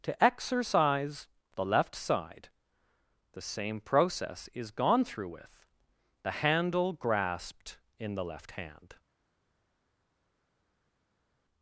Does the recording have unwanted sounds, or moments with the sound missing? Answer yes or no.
no